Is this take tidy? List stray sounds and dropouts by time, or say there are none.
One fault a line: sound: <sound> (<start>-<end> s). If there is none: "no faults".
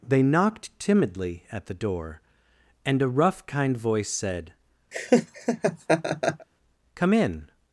sound: laugh (4.9-6.5 s)